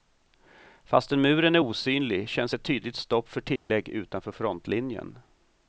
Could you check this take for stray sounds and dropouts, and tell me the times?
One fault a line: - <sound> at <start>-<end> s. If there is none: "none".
- dropout at 3.6-3.7 s